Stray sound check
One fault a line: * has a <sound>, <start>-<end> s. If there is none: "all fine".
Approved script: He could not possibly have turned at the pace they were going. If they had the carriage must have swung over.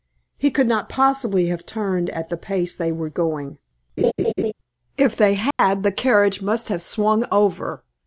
* has a laugh, 4.0-4.5 s
* has a dropout, 5.5-5.6 s